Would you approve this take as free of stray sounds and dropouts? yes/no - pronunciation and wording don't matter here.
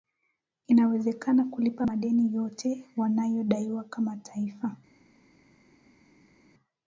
yes